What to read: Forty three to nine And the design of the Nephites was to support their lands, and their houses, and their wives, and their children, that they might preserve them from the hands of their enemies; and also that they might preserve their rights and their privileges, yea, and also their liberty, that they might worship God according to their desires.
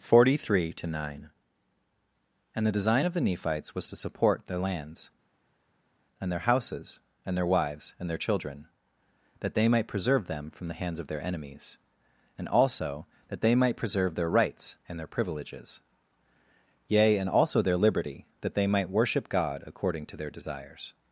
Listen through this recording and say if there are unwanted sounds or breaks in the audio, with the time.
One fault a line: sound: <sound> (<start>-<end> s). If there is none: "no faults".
no faults